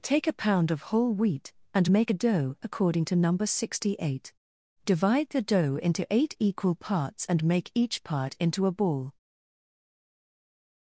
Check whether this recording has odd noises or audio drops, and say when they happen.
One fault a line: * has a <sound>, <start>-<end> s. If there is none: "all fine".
all fine